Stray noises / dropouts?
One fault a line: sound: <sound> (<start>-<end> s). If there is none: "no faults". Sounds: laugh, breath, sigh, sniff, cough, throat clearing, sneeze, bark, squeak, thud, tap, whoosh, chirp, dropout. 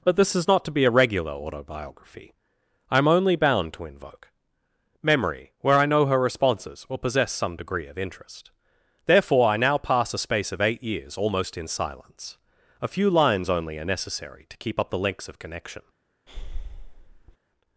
sound: breath (16.3-17.4 s)